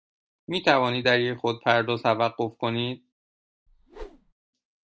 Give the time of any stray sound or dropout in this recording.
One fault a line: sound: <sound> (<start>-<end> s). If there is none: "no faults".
sound: whoosh (3.7-4.3 s)